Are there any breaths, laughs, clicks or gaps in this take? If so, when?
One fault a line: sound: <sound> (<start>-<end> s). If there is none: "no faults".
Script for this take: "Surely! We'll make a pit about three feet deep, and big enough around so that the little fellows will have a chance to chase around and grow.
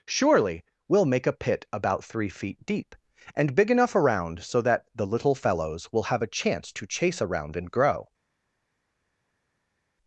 no faults